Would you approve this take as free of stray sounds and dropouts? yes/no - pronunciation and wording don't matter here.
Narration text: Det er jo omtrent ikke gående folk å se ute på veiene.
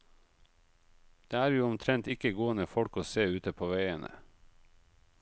yes